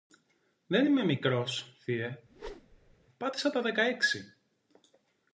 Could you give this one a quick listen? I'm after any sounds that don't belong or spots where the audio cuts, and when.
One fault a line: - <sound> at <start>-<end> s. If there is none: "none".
- whoosh at 2.3-3.0 s